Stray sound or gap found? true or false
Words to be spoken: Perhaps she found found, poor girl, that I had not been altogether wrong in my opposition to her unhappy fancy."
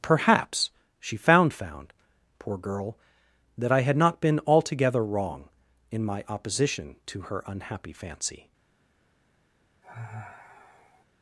true